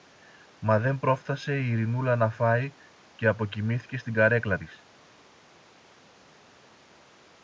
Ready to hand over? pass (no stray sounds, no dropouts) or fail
pass